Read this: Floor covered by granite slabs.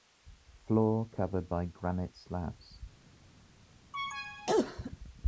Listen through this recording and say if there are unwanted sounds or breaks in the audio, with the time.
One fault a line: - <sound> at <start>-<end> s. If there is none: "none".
- cough at 3.9-5.0 s